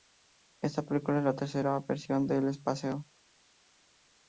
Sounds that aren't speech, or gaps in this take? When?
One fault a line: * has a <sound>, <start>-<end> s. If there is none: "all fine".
all fine